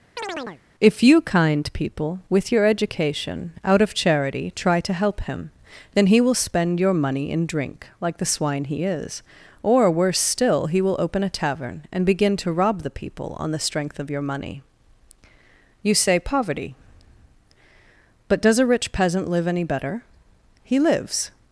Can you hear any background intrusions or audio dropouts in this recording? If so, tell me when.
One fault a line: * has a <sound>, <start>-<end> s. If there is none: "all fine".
* has a chirp, 0.2-0.6 s